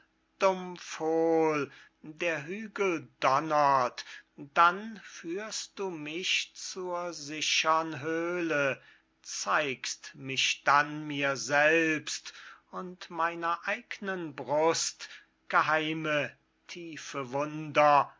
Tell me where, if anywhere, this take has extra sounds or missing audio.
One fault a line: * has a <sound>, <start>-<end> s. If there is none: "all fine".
all fine